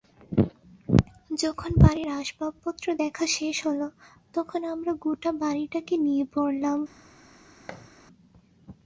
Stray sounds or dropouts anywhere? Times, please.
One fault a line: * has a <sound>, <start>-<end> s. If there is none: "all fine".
* has a thud, 7.7-7.9 s